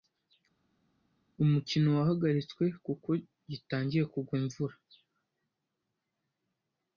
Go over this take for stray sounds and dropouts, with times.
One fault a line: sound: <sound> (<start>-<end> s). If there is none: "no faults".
no faults